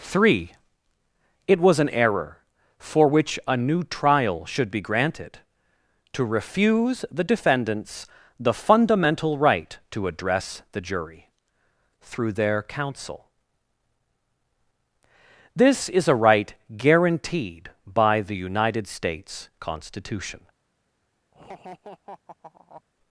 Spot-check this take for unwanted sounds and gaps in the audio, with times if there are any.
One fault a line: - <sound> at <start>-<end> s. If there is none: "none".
- laugh at 21.3-22.8 s